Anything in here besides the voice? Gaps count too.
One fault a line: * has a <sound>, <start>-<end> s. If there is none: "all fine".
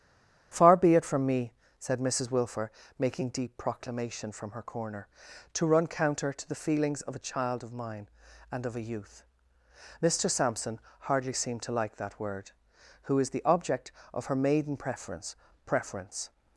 all fine